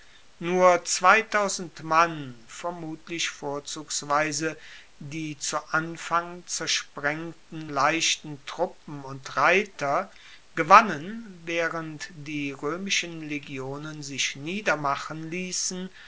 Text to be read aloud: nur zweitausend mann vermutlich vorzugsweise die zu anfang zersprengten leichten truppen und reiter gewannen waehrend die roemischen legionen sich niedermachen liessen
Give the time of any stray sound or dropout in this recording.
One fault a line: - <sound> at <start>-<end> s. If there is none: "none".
none